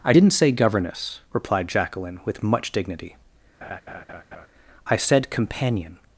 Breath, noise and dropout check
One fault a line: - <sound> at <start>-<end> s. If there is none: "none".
- laugh at 3.6-4.5 s